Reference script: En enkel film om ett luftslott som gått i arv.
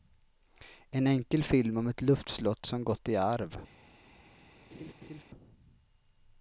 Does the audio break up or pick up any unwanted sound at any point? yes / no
yes